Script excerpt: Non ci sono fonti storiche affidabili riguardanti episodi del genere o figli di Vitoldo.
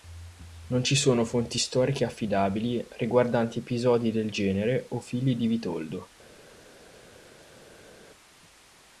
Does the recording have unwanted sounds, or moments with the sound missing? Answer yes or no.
no